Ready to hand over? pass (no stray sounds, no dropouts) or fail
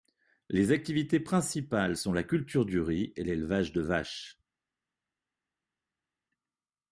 pass